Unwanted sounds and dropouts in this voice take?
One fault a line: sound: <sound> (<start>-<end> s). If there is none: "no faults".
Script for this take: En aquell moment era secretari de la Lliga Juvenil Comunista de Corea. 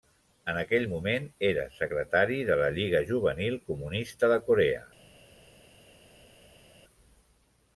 no faults